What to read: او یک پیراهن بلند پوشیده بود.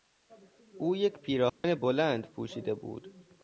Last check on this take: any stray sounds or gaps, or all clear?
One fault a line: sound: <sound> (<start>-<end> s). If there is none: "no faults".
sound: dropout (1.5-1.6 s)